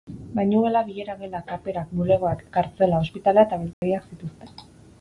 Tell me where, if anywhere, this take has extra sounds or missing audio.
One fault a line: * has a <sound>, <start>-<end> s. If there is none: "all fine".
* has a dropout, 3.7-3.8 s